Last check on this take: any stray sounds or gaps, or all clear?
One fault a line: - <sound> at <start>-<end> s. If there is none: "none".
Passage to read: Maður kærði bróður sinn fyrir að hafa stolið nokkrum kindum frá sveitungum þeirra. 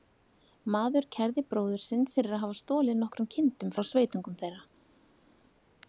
none